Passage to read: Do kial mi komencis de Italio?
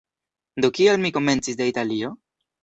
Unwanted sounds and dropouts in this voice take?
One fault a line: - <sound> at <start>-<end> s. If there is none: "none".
none